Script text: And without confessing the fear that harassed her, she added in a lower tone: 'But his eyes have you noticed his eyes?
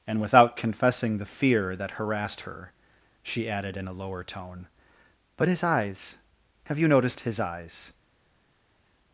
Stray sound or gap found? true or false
false